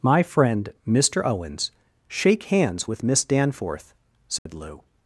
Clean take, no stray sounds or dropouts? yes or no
no